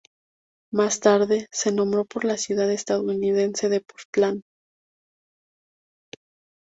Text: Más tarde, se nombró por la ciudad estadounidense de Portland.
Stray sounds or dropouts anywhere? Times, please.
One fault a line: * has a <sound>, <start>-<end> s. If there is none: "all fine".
all fine